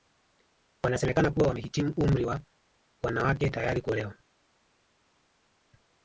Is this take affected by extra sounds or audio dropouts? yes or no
no